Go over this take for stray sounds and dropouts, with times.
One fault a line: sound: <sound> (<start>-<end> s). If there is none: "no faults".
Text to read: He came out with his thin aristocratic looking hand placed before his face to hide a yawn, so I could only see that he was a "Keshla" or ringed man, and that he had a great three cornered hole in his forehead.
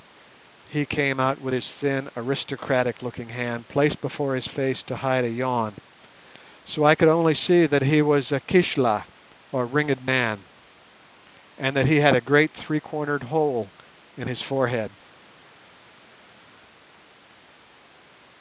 no faults